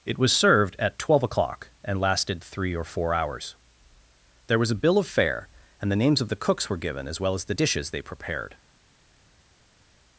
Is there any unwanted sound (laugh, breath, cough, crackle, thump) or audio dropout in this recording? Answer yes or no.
no